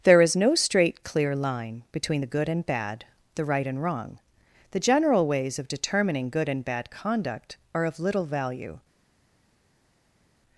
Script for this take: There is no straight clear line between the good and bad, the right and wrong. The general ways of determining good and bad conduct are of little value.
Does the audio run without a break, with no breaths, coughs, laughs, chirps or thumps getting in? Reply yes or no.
yes